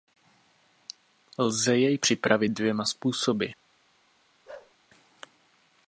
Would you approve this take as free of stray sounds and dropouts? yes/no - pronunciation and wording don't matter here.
no